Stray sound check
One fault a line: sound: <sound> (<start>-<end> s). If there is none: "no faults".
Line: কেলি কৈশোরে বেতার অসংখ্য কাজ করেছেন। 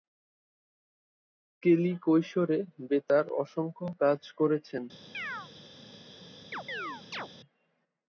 sound: chirp (5.1-5.5 s)
sound: chirp (6.5-7.3 s)